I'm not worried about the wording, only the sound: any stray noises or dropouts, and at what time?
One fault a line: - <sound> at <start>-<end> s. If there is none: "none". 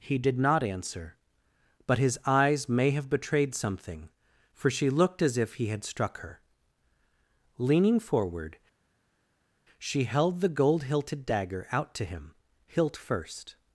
none